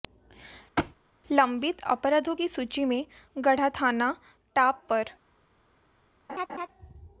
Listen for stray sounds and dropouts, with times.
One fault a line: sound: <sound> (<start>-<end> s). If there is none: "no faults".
sound: thud (0.8-1.0 s)
sound: laugh (6.3-6.7 s)